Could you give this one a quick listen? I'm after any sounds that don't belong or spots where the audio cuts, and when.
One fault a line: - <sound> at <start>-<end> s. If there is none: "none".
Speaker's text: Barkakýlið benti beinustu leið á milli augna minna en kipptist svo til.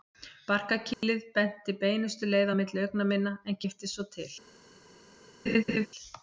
- dropout at 0.9-1.0 s
- laugh at 5.5-5.9 s